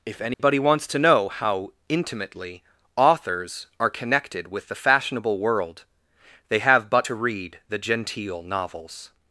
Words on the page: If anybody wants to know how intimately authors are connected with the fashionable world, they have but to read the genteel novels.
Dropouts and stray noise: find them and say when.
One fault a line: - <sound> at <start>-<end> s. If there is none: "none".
- dropout at 0.3-0.4 s